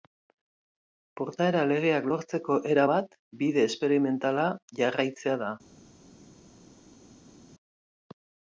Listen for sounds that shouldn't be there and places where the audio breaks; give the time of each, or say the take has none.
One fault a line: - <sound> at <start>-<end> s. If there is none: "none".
none